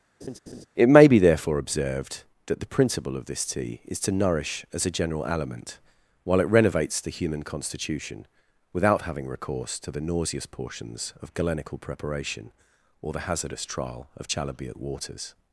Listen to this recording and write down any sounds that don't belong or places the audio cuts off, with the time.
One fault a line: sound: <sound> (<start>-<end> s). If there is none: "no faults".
sound: laugh (0.2-0.7 s)